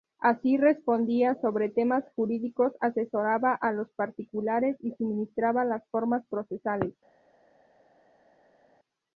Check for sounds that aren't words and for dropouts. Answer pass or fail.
pass